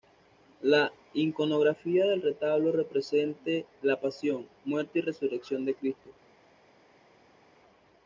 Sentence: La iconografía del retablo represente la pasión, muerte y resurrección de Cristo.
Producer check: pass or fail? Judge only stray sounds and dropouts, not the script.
pass